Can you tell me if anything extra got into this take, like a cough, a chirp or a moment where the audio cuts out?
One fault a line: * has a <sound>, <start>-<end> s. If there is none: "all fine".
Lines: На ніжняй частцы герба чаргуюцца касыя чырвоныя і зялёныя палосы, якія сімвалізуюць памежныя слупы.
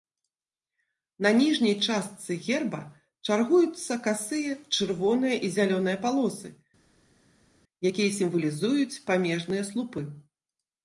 all fine